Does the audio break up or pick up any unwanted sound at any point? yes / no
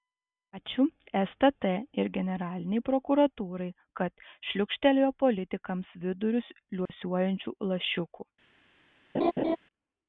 yes